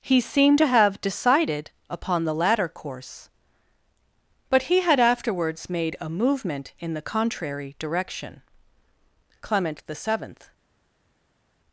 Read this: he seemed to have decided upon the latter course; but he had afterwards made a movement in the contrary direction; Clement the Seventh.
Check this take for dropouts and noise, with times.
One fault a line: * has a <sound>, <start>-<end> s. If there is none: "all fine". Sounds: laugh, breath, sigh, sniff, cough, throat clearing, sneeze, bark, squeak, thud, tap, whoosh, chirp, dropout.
all fine